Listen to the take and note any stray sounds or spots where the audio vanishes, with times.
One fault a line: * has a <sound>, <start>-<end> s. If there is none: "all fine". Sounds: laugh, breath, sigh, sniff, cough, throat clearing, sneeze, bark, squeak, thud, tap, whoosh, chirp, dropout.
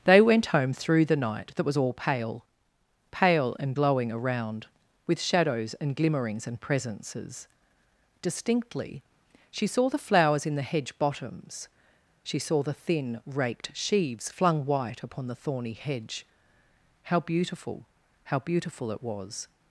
all fine